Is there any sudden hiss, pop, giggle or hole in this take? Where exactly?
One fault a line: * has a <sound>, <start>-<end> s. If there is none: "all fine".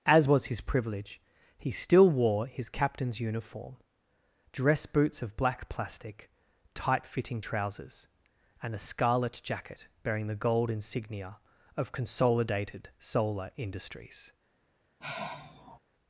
* has a sigh, 15.0-15.8 s